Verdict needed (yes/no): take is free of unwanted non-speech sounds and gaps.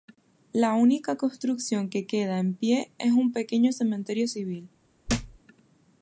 no